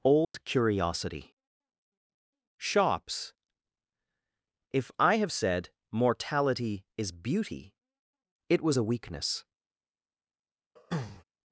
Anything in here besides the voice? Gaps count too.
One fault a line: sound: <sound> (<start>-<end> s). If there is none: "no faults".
sound: dropout (0.2-0.3 s)
sound: throat clearing (10.8-11.2 s)